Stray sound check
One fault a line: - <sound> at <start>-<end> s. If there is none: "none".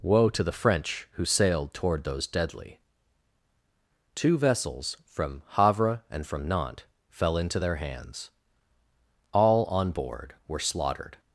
none